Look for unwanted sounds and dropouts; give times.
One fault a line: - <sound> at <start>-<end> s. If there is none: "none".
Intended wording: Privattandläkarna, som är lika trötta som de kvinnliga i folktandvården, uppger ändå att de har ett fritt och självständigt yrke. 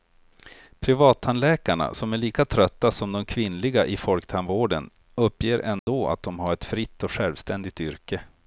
- dropout at 5.8-5.9 s